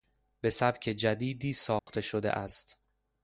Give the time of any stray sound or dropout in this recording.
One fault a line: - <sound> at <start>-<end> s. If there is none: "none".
- dropout at 1.8-1.9 s